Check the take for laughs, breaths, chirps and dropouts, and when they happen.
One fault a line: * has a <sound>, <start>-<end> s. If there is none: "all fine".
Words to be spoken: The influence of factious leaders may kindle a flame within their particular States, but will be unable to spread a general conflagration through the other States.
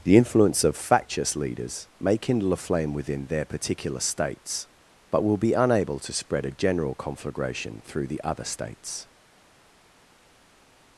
all fine